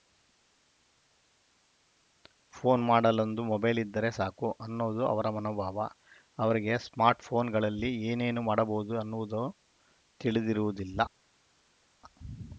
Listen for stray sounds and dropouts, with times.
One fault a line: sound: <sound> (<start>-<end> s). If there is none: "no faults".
no faults